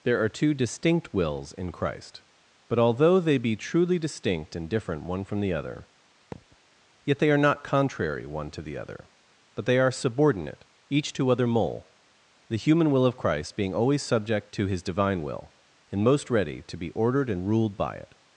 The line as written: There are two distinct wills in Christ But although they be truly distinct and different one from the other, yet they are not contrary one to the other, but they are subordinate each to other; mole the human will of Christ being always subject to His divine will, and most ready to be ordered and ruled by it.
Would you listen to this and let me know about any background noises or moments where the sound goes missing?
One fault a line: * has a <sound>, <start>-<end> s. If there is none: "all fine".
* has a thud, 6.3-6.6 s